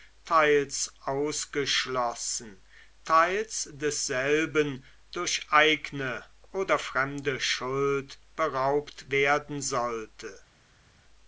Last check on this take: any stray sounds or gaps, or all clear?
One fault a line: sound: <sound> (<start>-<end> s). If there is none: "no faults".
no faults